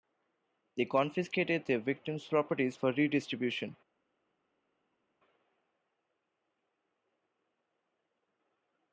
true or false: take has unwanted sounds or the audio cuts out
false